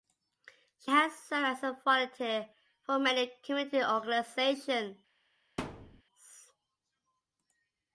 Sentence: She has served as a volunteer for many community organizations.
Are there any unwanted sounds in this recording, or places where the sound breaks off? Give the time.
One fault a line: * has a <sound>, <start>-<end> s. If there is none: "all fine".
* has a thud, 5.6-6.0 s